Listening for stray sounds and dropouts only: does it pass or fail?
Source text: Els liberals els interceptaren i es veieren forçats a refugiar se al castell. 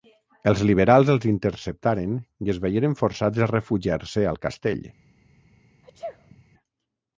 fail